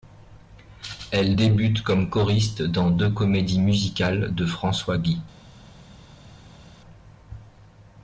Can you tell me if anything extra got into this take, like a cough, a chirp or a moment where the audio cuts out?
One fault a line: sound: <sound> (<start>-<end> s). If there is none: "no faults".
no faults